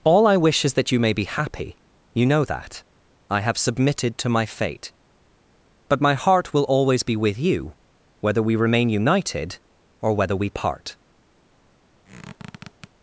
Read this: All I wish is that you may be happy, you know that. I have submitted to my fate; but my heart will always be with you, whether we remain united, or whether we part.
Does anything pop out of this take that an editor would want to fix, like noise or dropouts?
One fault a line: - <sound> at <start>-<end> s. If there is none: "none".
- squeak at 12.0-12.9 s